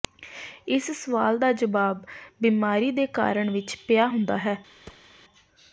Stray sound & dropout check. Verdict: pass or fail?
fail